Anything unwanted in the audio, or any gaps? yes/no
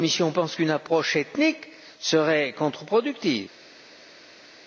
no